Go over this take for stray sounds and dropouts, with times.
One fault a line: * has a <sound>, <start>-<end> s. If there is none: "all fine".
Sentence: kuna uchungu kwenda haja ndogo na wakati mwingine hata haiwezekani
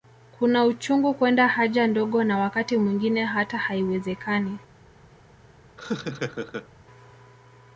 * has a laugh, 5.8-6.7 s